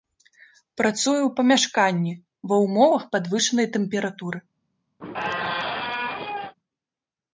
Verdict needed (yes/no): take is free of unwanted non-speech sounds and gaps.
no